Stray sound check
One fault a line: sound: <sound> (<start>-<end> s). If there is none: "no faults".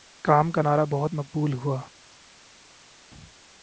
no faults